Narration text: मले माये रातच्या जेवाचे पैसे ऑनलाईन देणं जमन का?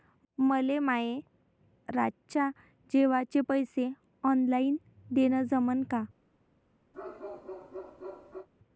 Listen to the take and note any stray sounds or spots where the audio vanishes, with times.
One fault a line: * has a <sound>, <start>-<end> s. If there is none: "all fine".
* has a bark, 6.9-8.5 s